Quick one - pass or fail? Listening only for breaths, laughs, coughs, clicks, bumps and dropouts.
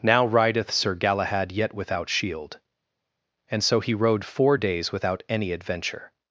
pass